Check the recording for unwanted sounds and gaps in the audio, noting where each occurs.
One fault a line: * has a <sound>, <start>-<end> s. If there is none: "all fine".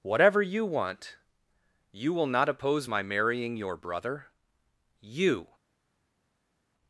all fine